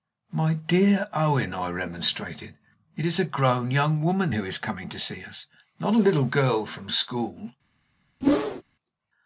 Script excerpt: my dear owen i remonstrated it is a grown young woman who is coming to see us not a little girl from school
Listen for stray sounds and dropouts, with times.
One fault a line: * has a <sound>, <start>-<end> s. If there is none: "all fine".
* has a whoosh, 8.2-8.6 s